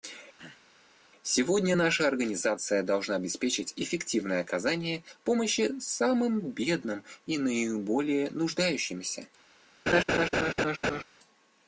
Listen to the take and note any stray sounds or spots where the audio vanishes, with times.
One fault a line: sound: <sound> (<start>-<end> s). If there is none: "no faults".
sound: throat clearing (0.4-0.7 s)
sound: laugh (9.9-11.0 s)